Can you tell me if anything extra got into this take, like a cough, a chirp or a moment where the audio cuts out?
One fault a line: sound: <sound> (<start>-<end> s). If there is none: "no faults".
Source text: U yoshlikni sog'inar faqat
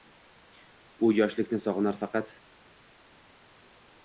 no faults